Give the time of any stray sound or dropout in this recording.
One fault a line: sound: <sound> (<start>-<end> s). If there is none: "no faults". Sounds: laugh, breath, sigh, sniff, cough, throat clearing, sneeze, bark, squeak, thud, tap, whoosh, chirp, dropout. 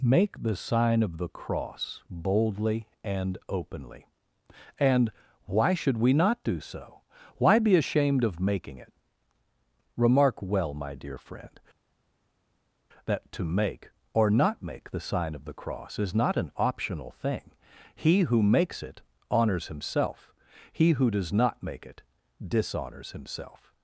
no faults